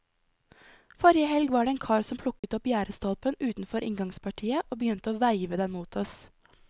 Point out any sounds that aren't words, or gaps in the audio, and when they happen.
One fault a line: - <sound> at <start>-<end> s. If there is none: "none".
- dropout at 2.4-2.4 s